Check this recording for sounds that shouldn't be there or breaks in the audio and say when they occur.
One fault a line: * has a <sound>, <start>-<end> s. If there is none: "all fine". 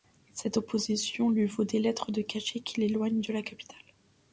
all fine